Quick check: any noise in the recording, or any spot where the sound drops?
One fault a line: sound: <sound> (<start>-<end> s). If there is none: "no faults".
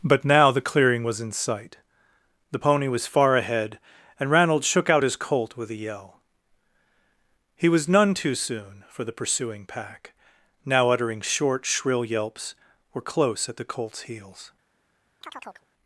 sound: chirp (15.2-15.7 s)